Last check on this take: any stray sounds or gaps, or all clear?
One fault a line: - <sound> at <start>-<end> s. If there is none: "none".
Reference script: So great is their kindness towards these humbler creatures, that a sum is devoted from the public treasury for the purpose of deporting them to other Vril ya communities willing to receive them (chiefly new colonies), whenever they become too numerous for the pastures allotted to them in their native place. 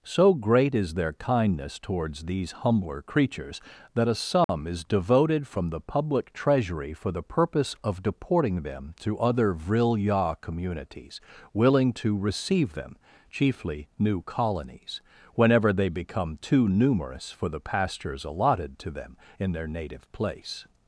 - dropout at 4.4-4.5 s